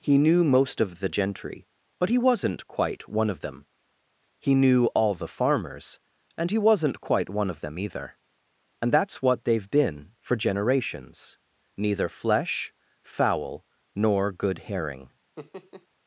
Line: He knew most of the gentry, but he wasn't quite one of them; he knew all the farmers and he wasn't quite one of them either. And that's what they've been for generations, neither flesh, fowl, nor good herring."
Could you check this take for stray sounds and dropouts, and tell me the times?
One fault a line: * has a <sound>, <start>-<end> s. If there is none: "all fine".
* has a laugh, 15.4-15.9 s